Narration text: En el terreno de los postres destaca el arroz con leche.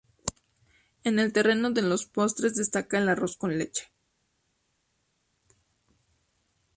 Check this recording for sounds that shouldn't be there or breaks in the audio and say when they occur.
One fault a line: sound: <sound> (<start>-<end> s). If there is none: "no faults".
no faults